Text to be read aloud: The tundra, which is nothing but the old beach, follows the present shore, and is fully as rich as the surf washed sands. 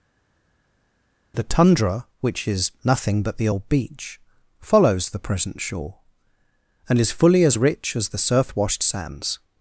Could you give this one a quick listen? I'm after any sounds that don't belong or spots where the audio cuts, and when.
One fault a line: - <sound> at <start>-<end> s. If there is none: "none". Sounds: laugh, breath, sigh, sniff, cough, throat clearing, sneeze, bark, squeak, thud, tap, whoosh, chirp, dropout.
none